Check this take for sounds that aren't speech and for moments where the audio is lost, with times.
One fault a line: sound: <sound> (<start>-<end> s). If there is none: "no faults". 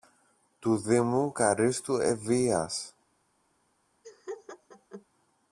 sound: laugh (4.0-5.1 s)